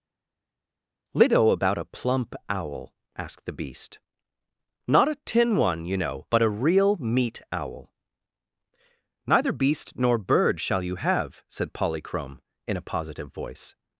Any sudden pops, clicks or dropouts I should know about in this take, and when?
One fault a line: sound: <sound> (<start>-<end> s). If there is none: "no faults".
no faults